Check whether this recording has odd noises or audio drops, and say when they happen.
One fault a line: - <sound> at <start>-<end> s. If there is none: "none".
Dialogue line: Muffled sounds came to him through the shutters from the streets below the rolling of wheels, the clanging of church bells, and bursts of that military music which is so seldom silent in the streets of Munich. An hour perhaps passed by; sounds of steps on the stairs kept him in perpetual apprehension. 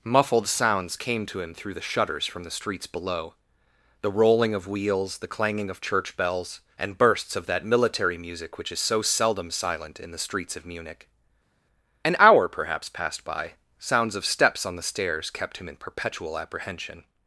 none